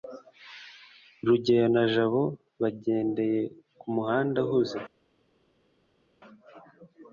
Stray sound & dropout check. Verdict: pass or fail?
pass